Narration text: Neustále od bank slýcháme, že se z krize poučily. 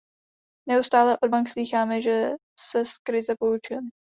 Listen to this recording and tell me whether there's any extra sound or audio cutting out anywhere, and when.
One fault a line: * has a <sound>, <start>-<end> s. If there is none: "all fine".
all fine